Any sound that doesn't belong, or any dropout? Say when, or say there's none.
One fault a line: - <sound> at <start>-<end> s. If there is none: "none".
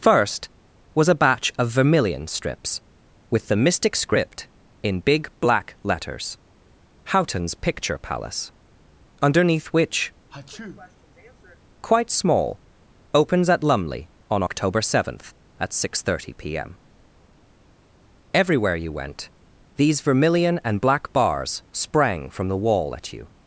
- sneeze at 10.3-11.6 s